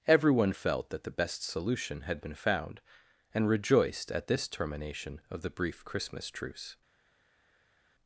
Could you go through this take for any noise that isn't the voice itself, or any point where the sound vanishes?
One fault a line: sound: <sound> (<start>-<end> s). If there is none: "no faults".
no faults